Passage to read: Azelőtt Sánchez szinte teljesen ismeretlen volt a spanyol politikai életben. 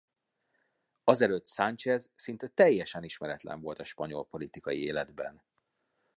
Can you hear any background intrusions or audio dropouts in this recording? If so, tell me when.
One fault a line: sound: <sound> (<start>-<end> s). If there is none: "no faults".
no faults